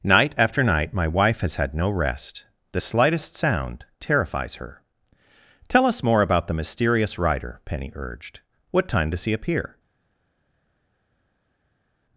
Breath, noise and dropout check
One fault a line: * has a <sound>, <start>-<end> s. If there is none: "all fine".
all fine